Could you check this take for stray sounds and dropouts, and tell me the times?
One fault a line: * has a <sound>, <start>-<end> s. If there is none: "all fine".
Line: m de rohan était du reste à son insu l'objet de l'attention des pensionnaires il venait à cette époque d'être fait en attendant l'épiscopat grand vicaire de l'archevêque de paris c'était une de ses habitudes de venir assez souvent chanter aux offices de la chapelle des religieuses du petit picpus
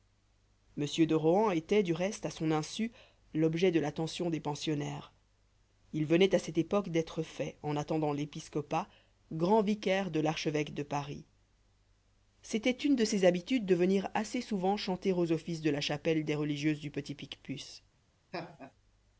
* has a laugh, 18.3-18.7 s